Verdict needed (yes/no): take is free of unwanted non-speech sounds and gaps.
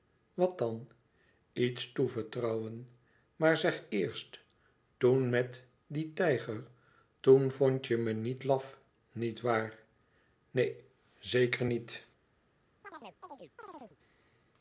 no